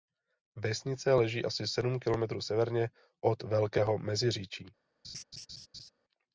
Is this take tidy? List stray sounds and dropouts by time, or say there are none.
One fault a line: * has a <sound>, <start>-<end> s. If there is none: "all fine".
* has a laugh, 5.0-5.9 s